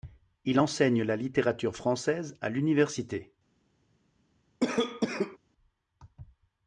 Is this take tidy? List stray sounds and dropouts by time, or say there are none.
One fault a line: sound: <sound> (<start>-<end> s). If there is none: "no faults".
sound: cough (4.6-5.4 s)